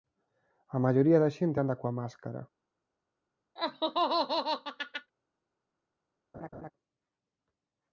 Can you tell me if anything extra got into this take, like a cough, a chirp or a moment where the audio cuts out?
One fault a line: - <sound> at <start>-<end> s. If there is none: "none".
- laugh at 3.6-5.1 s
- laugh at 6.3-6.7 s